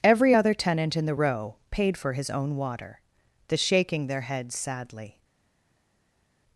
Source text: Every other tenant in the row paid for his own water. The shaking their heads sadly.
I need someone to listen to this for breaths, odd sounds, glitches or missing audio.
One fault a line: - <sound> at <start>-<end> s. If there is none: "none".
none